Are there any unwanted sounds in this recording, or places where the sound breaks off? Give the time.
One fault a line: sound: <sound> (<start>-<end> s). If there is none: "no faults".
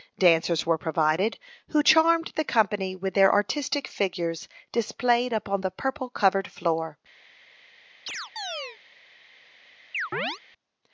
sound: chirp (8.1-8.8 s)
sound: chirp (9.9-10.4 s)